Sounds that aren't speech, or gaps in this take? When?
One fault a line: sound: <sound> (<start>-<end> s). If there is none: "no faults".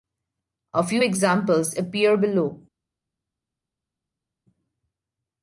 no faults